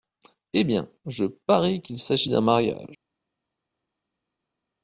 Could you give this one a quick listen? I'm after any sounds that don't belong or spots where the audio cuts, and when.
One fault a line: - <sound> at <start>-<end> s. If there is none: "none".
none